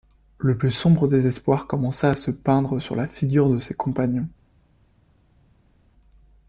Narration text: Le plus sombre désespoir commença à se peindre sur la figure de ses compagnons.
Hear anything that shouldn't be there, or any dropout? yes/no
no